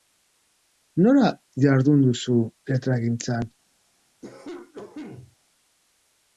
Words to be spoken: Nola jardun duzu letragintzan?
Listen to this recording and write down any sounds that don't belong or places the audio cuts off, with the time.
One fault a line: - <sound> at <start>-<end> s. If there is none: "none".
- cough at 4.2-5.4 s